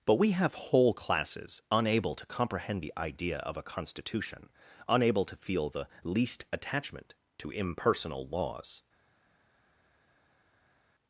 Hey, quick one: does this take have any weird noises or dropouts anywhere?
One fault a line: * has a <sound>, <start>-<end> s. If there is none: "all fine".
all fine